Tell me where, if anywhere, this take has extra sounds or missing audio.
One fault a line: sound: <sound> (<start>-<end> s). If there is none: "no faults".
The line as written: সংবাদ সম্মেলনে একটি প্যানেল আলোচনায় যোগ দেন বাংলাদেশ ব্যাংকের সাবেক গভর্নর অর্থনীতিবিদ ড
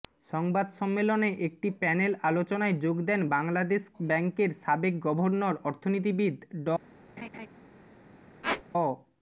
sound: laugh (7.2-7.5 s)
sound: squeak (8.4-8.6 s)